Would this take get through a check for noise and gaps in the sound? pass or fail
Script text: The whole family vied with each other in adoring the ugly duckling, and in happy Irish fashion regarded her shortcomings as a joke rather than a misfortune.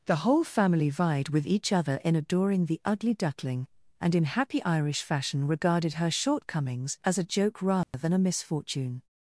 fail